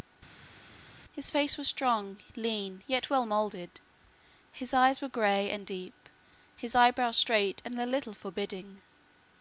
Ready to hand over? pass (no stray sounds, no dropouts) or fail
pass